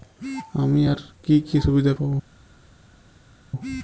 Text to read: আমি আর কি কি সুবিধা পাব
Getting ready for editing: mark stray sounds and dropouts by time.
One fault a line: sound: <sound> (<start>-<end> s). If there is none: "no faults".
no faults